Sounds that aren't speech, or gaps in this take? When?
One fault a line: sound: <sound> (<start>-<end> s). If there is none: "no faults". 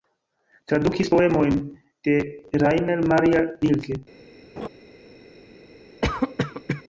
sound: laugh (4.6-4.7 s)
sound: cough (6.0-6.8 s)